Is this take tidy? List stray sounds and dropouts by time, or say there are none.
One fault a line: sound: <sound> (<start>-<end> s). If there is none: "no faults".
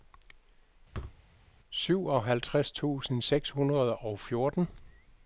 sound: thud (0.9-1.2 s)